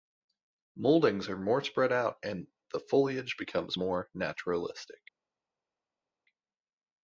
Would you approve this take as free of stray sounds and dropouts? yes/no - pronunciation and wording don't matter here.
yes